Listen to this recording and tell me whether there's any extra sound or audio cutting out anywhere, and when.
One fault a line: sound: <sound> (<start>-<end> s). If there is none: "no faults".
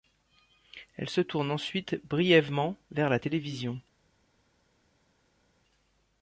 no faults